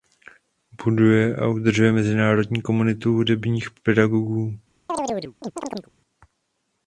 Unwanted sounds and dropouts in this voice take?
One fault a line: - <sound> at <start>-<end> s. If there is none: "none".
- chirp at 4.9-5.9 s